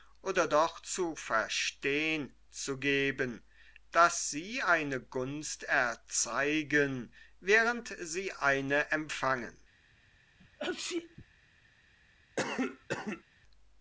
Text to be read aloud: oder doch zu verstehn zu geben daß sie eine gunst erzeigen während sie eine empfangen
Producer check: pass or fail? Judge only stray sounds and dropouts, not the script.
fail